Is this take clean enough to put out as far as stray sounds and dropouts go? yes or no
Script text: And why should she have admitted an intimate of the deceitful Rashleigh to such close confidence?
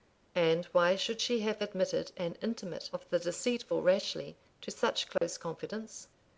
no